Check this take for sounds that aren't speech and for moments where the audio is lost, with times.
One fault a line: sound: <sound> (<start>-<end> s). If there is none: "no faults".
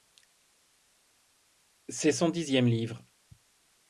no faults